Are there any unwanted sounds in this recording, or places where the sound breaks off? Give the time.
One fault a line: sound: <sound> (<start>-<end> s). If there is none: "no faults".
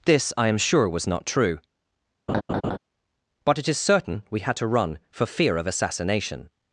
sound: laugh (2.3-2.8 s)